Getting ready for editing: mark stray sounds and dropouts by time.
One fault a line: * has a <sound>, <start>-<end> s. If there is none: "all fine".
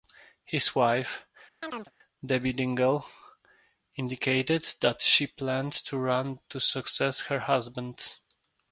* has a chirp, 1.6-1.9 s